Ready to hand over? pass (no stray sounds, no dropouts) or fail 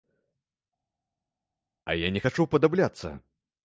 pass